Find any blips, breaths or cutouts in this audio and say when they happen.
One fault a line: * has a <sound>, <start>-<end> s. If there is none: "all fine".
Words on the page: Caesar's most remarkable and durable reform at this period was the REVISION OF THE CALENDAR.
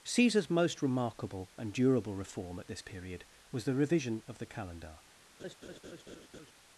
* has a laugh, 5.4-6.5 s